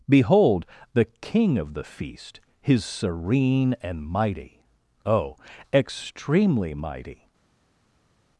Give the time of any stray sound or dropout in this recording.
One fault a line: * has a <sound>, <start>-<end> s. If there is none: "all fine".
all fine